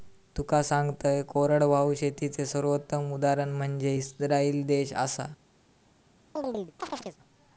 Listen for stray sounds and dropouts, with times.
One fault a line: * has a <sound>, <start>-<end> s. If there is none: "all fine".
* has a chirp, 6.4-7.2 s